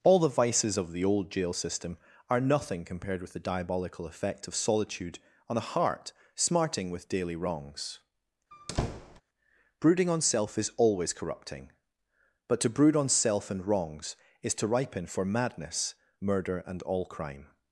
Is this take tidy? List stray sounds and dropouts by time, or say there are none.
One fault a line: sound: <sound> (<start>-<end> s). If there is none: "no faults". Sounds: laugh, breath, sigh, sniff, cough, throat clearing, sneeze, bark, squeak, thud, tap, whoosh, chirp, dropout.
sound: squeak (8.5-9.2 s)